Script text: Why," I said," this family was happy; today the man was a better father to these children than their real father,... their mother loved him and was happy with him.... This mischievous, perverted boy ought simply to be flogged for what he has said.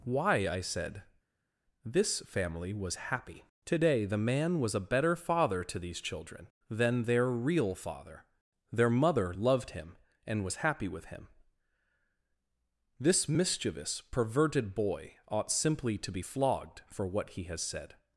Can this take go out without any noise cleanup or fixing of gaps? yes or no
yes